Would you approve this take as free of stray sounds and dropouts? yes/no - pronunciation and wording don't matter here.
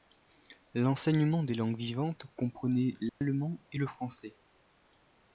no